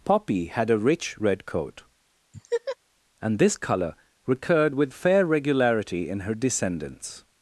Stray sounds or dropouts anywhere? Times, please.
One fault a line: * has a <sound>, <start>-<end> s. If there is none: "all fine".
* has a laugh, 2.3-2.8 s